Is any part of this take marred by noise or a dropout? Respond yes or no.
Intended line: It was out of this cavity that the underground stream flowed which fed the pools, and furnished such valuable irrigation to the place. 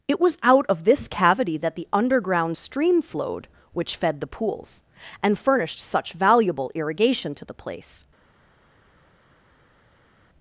no